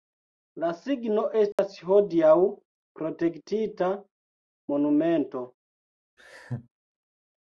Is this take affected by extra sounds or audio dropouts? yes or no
yes